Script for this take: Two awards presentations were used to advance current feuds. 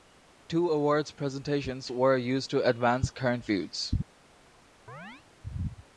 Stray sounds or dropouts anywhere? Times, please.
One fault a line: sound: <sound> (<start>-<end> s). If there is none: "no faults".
sound: chirp (4.9-5.2 s)